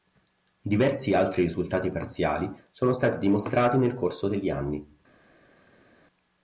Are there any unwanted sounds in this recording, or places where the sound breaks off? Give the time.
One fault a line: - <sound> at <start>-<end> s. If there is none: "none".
none